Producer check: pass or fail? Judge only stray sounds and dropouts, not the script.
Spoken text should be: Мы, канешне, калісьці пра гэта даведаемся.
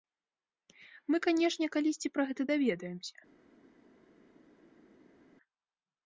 pass